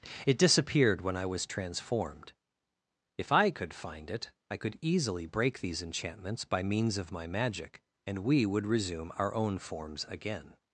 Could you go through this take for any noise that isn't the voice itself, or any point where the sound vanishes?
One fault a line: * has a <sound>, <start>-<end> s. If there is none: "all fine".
all fine